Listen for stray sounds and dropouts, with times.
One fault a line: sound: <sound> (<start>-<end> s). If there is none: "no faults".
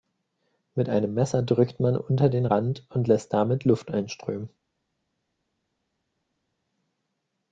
no faults